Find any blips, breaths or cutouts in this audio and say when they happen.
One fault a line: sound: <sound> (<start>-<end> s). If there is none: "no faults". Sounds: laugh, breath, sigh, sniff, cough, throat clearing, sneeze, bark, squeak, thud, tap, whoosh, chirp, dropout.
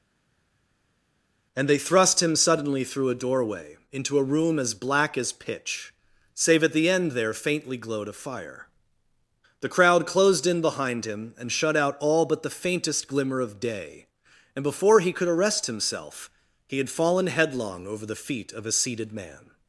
no faults